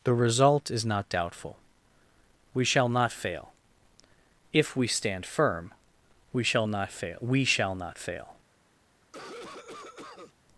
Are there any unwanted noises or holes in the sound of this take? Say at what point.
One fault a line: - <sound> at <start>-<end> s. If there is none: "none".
- cough at 9.0-10.3 s